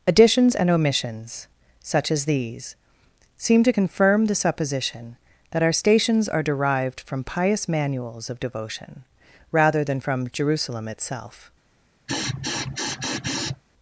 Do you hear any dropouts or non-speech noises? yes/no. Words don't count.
yes